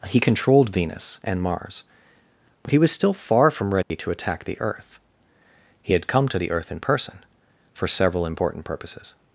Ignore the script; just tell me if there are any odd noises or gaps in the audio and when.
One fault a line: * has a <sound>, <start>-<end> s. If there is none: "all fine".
* has a dropout, 3.8-3.9 s